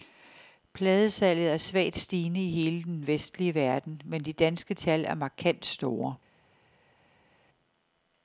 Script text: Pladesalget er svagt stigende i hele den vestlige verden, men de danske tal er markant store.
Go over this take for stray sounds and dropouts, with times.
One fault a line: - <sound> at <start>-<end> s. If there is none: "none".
none